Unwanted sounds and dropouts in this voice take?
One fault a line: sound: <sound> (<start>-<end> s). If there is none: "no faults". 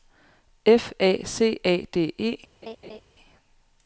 sound: laugh (2.6-3.0 s)